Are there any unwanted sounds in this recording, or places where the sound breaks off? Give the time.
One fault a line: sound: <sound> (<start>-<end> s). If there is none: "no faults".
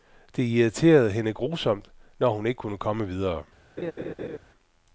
sound: laugh (3.8-4.4 s)